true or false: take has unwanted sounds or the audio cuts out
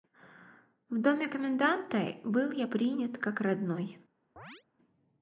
true